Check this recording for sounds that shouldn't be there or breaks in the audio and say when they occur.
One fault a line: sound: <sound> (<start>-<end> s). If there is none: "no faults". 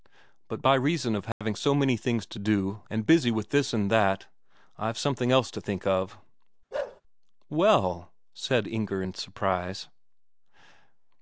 sound: dropout (1.3-1.4 s)
sound: bark (6.7-7.0 s)